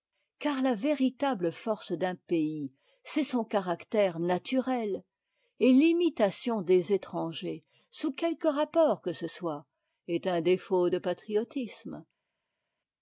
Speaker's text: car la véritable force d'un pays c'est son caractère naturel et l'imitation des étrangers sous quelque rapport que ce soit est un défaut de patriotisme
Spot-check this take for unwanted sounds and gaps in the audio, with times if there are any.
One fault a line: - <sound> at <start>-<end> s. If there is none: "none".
none